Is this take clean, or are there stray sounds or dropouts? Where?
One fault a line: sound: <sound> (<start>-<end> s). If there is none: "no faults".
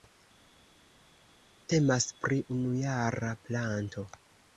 no faults